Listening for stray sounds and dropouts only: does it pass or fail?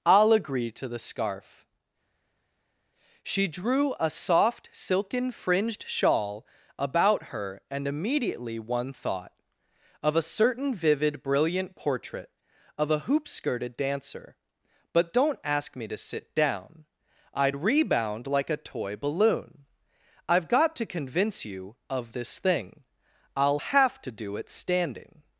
pass